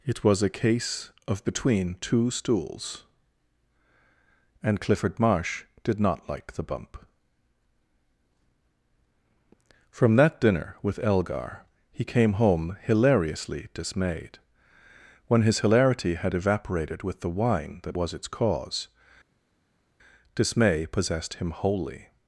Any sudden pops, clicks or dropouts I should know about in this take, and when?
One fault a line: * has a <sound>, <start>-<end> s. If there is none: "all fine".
all fine